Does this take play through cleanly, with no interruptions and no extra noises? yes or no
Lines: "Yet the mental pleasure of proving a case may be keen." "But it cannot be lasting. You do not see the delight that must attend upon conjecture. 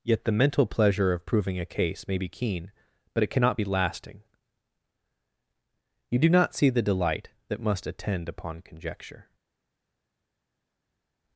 yes